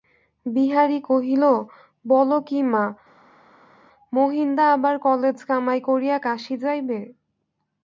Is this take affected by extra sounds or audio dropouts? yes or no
no